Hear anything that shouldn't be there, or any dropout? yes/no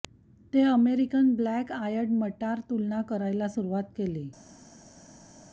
no